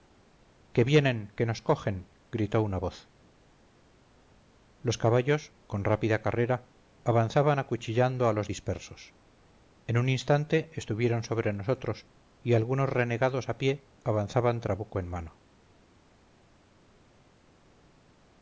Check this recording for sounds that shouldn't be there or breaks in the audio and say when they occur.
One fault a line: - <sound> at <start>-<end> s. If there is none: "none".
none